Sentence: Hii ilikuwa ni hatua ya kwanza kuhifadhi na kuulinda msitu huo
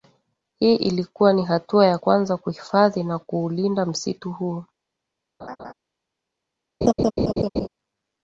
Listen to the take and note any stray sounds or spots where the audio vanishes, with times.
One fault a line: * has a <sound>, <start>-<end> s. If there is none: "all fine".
* has a laugh, 5.4-5.7 s
* has a laugh, 6.8-7.7 s